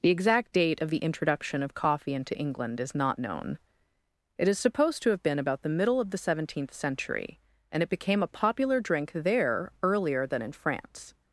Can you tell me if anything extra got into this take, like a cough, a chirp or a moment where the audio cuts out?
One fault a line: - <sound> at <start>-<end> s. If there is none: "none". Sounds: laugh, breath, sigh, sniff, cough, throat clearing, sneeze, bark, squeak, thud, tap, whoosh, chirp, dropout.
none